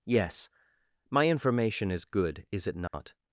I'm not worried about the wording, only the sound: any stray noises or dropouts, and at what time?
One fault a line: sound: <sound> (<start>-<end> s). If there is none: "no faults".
sound: dropout (2.9-2.9 s)